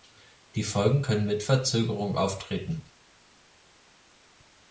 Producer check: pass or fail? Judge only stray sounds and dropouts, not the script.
pass